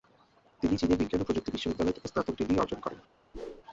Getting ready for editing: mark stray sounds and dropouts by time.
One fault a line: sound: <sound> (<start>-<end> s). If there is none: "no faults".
sound: whoosh (3.3-3.6 s)